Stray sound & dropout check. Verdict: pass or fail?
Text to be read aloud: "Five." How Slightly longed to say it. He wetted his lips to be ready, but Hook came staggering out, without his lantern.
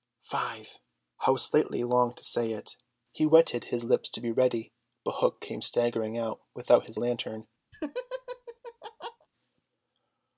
fail